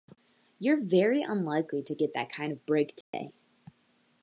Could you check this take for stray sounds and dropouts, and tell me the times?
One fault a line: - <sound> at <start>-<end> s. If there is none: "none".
- dropout at 3.0-3.1 s